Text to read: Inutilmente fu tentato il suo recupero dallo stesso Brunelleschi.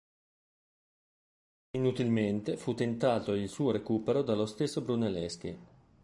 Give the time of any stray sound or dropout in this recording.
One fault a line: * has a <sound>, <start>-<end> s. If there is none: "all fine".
all fine